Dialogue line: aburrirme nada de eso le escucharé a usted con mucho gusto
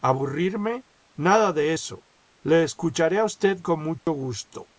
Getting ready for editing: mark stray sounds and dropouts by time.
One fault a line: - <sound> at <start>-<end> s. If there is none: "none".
- dropout at 4.0-4.1 s